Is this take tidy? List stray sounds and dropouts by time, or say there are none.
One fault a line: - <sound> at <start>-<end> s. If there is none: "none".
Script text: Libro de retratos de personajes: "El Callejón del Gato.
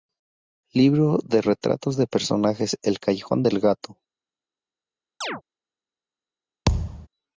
- chirp at 5.2-5.4 s
- thud at 6.7-7.1 s